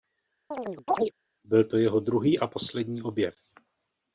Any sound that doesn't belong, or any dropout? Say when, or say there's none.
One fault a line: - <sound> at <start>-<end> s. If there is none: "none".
- chirp at 0.5-1.1 s